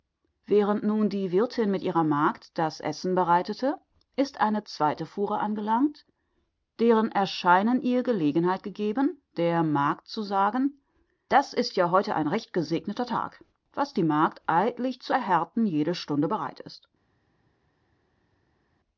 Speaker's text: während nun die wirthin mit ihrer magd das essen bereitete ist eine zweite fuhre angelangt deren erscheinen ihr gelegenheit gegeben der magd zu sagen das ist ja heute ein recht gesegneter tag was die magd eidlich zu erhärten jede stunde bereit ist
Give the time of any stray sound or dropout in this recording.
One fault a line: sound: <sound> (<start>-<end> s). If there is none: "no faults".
no faults